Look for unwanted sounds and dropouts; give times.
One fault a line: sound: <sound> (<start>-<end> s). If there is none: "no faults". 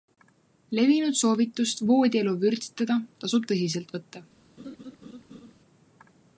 sound: laugh (4.6-5.5 s)